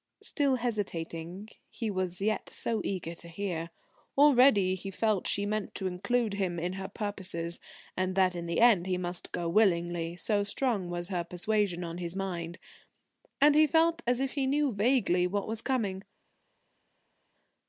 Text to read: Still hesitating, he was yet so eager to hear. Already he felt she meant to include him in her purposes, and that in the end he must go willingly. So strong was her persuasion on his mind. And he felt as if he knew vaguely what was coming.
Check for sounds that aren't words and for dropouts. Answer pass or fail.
pass